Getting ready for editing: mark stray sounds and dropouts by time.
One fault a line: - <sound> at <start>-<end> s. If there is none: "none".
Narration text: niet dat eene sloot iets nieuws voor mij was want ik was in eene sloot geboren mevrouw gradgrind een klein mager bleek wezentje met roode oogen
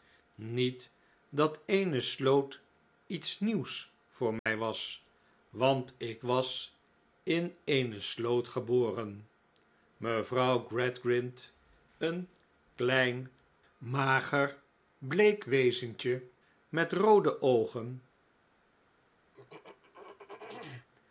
- dropout at 4.4-4.5 s
- throat clearing at 19.3-20.9 s